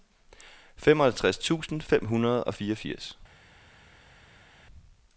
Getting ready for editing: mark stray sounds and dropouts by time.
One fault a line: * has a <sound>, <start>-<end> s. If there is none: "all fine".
all fine